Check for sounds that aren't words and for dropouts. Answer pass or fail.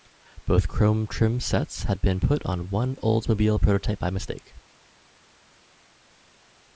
pass